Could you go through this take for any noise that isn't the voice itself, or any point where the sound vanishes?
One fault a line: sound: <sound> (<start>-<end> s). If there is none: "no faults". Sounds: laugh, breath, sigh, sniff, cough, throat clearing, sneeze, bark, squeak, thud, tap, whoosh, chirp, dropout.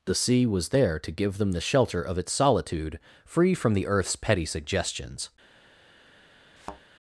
sound: thud (6.6-6.8 s)